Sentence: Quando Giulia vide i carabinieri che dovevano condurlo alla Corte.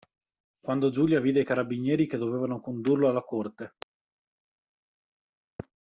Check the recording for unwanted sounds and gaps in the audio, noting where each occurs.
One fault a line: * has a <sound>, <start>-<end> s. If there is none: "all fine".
all fine